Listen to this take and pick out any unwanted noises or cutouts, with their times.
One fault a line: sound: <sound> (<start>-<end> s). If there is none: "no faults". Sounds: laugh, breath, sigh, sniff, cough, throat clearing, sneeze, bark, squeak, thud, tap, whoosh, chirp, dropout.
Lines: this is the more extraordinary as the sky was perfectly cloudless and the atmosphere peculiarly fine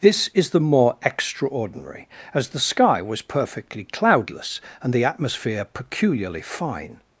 no faults